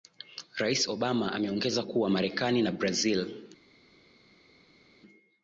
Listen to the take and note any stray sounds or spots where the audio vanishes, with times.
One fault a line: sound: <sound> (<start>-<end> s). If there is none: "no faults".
no faults